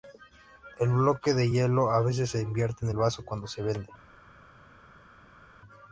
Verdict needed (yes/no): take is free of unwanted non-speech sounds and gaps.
yes